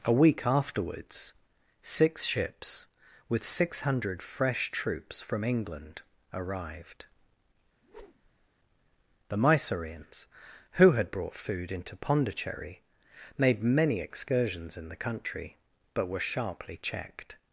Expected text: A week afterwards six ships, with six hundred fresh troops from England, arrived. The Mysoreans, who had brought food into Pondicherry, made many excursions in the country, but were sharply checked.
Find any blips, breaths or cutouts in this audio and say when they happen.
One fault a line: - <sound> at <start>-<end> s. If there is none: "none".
- whoosh at 7.8-8.5 s